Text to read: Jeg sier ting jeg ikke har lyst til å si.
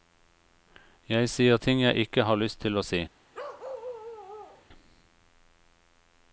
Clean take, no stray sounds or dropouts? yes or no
no